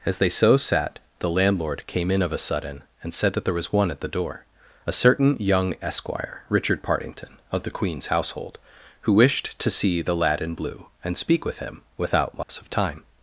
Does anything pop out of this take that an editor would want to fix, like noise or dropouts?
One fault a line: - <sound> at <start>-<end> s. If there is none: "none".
- dropout at 12.4-12.5 s